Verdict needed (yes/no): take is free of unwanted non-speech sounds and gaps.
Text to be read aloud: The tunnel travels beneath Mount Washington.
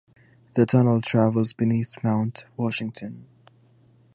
yes